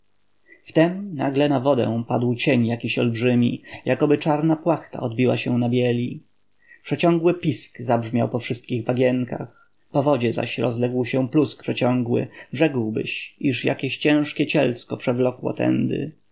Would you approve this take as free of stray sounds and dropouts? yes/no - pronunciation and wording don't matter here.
yes